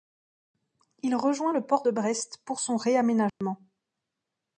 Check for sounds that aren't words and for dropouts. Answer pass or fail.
fail